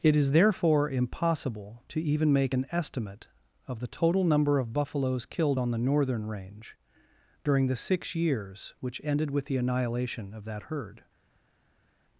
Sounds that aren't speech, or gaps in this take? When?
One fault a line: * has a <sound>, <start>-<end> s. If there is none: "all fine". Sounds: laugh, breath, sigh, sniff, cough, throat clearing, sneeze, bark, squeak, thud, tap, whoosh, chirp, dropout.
all fine